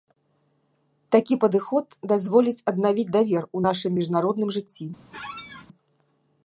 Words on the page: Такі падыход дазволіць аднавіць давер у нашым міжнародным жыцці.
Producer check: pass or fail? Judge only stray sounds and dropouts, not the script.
fail